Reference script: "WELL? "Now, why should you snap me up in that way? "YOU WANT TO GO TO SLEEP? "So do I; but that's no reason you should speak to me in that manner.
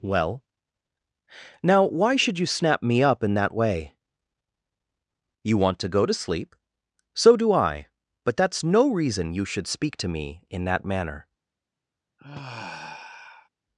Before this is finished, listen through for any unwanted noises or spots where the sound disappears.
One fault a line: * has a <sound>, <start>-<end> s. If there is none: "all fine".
* has a sigh, 12.2-13.5 s